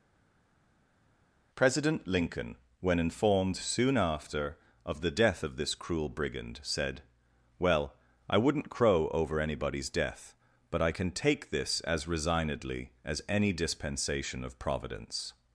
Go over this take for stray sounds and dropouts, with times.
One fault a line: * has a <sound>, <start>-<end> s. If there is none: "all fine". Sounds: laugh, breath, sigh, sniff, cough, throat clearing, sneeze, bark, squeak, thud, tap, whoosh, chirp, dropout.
all fine